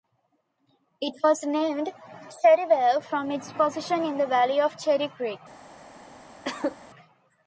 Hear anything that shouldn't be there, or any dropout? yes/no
yes